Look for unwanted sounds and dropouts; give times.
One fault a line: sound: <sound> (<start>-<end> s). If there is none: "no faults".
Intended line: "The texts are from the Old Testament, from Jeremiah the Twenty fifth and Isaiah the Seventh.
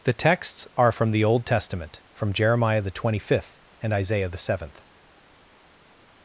no faults